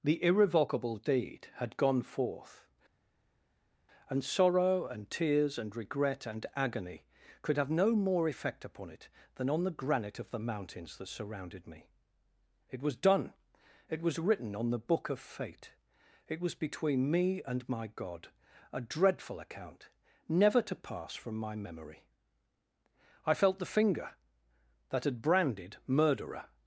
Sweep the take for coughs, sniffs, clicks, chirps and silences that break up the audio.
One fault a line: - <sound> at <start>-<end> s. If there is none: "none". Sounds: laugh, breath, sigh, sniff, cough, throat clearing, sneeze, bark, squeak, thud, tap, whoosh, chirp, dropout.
none